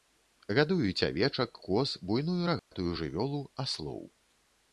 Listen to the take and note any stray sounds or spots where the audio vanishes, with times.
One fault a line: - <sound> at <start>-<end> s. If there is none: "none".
- dropout at 2.6-2.7 s